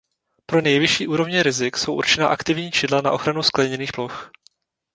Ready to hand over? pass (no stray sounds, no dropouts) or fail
pass